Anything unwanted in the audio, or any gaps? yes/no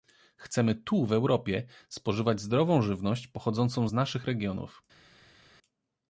no